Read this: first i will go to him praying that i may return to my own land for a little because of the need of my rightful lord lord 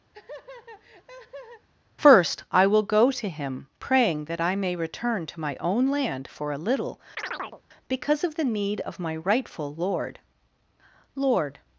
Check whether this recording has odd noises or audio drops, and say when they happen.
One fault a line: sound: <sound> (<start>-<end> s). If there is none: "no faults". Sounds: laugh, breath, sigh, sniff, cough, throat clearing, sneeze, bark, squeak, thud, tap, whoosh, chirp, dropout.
sound: laugh (0.1-1.7 s)
sound: chirp (7.2-7.6 s)